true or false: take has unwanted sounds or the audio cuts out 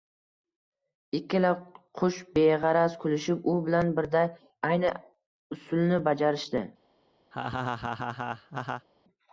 true